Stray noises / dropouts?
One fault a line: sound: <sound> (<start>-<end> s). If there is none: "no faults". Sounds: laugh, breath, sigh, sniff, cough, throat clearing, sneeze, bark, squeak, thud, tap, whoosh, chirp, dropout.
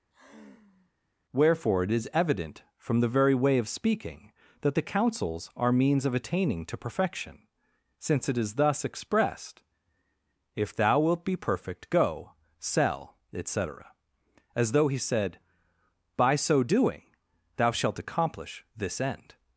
sound: sigh (0.1-0.9 s)